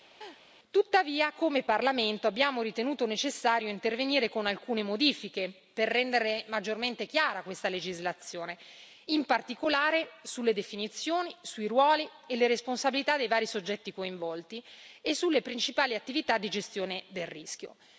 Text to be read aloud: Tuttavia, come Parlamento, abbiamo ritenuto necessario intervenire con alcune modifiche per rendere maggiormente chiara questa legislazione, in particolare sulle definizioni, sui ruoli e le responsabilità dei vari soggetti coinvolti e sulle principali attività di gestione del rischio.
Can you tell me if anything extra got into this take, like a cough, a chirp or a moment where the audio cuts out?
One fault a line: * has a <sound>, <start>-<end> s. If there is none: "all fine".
* has a laugh, 0.2-0.4 s